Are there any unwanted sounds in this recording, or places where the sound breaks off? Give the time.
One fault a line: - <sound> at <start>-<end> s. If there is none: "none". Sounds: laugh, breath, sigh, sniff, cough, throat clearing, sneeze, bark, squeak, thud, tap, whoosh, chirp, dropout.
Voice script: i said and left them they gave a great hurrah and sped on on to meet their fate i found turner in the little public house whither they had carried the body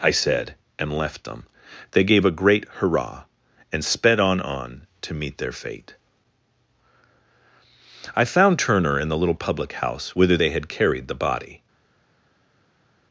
none